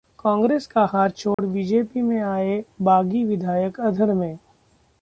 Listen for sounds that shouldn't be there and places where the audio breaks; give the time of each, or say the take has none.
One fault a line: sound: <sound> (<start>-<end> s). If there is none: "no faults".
sound: dropout (1.3-1.4 s)